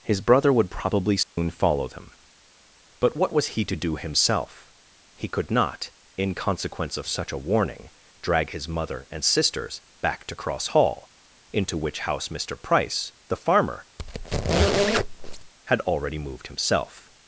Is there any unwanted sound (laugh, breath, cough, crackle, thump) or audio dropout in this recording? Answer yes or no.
yes